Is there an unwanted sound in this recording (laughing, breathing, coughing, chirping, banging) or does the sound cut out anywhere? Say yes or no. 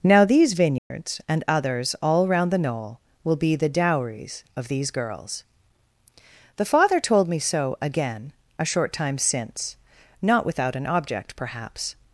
yes